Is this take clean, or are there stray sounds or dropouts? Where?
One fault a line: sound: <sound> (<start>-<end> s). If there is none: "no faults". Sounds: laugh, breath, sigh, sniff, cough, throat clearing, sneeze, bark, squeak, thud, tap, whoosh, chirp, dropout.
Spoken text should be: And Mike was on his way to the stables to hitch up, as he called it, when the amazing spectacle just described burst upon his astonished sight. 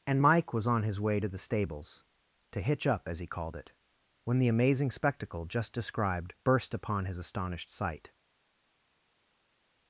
no faults